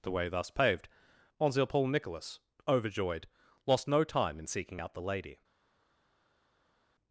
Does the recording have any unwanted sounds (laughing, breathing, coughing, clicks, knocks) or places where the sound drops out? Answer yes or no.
no